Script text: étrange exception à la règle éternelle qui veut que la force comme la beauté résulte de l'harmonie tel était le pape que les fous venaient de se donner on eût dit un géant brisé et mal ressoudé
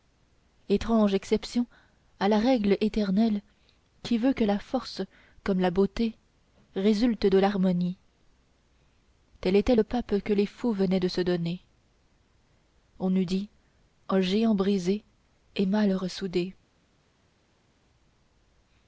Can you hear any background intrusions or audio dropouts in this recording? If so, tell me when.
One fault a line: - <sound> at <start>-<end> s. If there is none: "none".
none